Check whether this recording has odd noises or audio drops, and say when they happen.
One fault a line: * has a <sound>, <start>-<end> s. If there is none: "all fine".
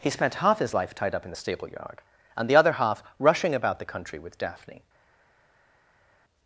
all fine